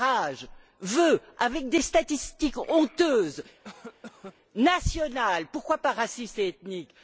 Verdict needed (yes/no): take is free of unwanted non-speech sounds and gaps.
no